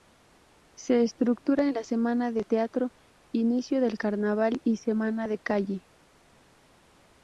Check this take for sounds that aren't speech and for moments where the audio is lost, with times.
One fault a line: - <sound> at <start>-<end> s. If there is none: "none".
none